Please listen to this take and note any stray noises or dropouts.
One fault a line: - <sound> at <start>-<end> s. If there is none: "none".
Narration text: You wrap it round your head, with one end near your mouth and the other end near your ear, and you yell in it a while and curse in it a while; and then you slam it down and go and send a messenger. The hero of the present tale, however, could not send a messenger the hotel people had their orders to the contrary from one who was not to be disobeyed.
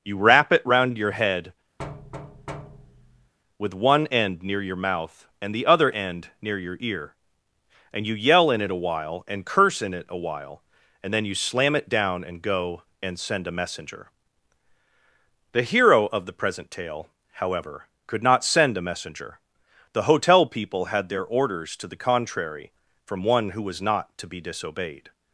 - thud at 1.8-3.3 s